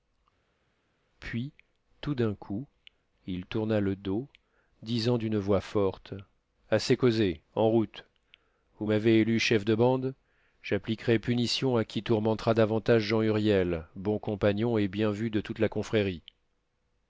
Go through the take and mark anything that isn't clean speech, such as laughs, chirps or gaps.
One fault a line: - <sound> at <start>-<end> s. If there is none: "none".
none